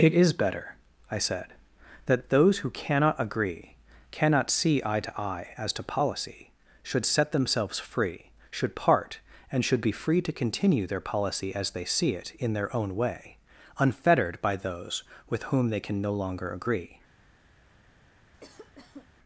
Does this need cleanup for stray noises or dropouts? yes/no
yes